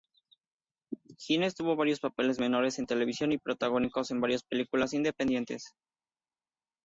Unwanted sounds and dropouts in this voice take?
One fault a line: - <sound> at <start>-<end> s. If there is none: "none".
none